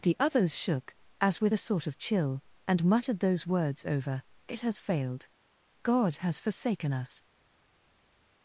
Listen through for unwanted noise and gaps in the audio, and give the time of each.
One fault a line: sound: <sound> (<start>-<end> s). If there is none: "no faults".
no faults